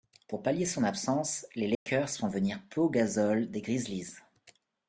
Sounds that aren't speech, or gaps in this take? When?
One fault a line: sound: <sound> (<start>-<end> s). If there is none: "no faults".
sound: dropout (1.7-1.9 s)